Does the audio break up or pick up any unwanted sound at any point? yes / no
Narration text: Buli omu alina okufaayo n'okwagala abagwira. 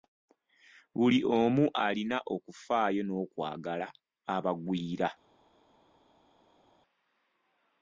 no